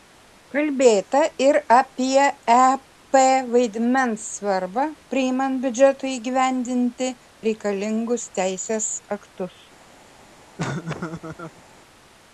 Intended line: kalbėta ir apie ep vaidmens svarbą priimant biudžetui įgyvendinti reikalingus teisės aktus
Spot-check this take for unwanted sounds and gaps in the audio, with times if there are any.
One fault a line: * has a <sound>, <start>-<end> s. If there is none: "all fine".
* has a laugh, 10.6-11.6 s